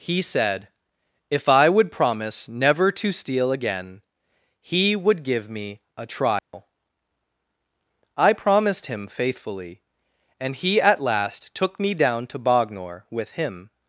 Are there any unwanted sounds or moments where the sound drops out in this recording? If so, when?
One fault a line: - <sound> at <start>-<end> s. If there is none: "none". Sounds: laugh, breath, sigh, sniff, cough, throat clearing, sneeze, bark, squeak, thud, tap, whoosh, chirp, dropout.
- dropout at 6.4-6.5 s